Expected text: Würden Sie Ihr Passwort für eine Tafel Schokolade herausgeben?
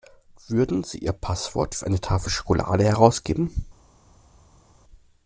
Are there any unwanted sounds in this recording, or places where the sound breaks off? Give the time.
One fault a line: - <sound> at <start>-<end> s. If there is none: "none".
none